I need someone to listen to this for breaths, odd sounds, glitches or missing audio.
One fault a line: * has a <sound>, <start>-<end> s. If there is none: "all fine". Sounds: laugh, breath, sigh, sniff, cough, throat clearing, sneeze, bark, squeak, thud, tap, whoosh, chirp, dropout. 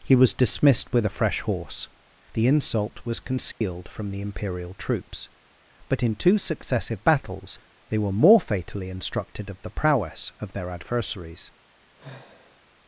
* has a dropout, 3.5-3.6 s
* has a sigh, 11.9-12.6 s